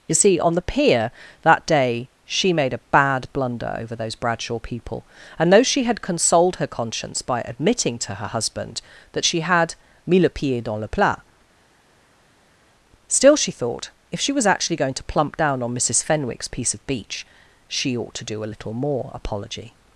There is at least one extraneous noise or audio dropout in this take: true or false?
false